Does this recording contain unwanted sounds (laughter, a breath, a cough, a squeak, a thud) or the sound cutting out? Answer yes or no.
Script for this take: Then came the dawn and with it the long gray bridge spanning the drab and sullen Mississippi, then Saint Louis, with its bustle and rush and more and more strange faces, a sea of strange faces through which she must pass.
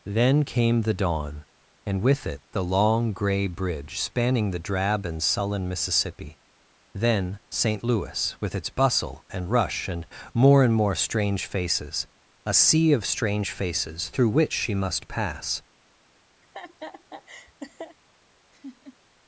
yes